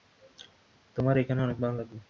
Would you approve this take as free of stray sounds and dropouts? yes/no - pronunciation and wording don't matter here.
yes